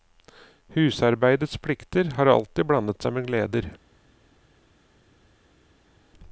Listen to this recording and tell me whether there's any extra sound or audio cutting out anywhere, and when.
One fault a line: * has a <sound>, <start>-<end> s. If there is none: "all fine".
all fine